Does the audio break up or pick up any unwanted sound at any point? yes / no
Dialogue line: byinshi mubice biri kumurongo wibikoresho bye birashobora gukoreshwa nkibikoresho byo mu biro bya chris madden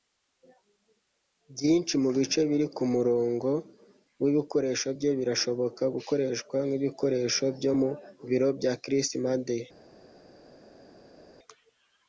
no